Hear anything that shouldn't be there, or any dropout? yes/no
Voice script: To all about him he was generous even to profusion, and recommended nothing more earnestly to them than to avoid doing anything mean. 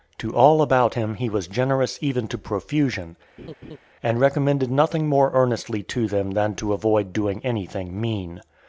yes